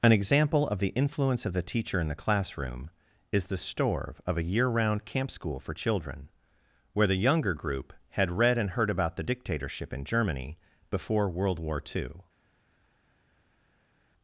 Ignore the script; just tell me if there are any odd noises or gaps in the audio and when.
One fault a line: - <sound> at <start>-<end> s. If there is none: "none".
none